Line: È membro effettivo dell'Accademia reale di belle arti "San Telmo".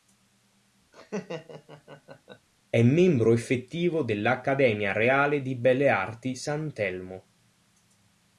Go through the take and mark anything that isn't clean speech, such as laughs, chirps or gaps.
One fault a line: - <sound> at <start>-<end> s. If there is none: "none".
- laugh at 0.9-2.5 s